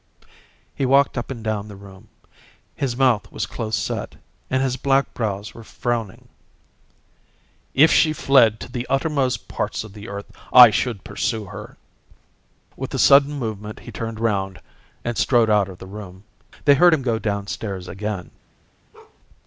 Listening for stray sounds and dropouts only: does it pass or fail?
fail